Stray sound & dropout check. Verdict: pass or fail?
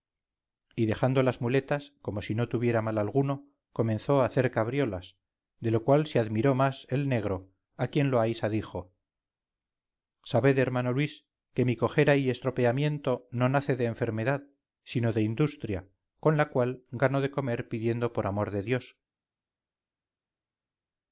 pass